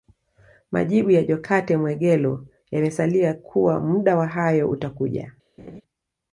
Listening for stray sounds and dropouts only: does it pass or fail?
fail